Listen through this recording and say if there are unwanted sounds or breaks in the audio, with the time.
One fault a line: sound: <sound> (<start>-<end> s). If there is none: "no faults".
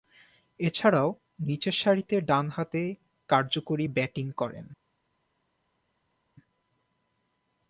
no faults